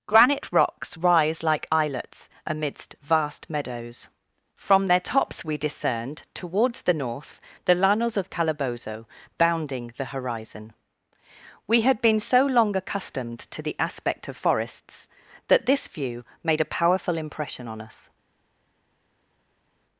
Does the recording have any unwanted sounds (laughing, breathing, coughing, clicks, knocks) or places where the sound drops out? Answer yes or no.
no